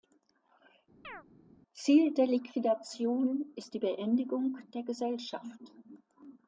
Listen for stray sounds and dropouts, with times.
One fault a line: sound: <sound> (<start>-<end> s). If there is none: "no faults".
sound: chirp (1.0-1.2 s)